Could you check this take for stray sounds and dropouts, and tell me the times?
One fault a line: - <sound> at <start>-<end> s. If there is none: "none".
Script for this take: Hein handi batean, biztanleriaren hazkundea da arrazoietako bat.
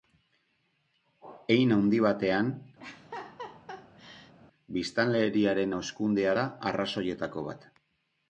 - laugh at 2.8-4.3 s